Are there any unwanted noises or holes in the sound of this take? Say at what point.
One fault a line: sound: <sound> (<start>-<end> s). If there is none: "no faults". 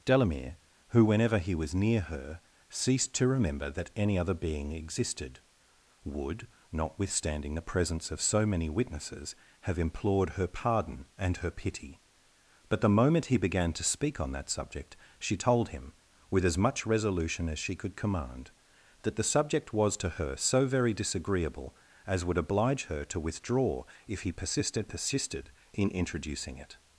no faults